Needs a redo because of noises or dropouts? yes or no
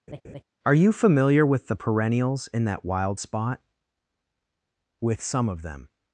yes